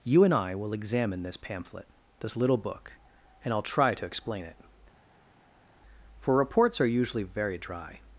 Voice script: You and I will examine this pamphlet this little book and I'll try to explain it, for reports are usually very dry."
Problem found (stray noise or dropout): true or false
false